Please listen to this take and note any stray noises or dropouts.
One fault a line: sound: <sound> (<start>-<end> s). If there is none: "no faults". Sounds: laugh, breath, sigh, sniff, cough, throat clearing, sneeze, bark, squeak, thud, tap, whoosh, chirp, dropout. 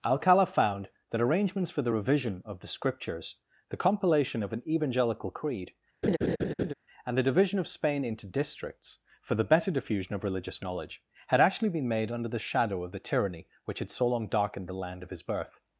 sound: laugh (6.0-6.7 s)